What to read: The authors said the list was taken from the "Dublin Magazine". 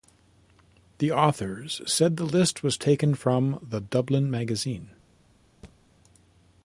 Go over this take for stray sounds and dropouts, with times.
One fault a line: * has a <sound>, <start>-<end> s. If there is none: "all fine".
* has a thud, 5.6-5.8 s